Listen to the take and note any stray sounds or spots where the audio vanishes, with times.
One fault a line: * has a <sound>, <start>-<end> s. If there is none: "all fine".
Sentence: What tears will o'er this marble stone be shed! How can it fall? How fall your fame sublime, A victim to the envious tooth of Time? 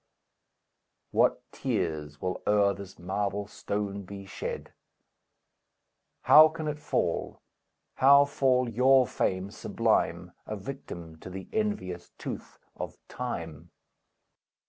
all fine